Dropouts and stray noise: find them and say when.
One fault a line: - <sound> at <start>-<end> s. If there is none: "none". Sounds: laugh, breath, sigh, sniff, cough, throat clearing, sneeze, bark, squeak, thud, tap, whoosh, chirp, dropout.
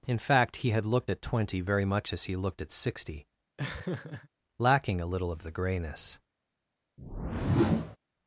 - laugh at 3.6-4.3 s
- whoosh at 7.0-8.0 s